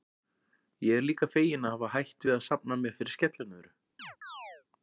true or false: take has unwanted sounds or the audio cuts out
true